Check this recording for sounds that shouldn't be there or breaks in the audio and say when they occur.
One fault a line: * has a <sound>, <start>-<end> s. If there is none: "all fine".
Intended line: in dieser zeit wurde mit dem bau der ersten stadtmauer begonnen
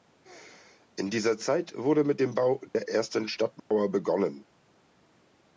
* has a dropout, 2.7-2.7 s
* has a dropout, 3.6-3.7 s